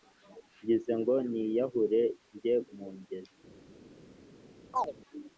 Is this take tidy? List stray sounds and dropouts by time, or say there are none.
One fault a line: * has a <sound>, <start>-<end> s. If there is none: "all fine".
* has a chirp, 4.7-4.9 s